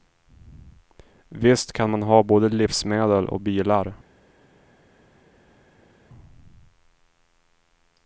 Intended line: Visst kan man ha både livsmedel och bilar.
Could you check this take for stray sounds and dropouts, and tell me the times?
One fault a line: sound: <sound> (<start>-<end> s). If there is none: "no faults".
no faults